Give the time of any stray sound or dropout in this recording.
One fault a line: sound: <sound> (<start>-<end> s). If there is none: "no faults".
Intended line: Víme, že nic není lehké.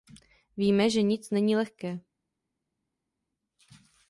no faults